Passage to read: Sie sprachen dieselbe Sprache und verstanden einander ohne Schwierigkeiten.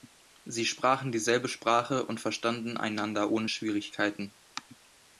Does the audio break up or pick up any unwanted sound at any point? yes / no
no